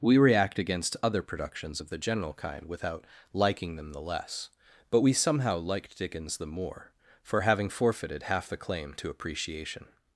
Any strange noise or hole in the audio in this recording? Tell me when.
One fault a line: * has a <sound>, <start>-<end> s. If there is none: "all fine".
all fine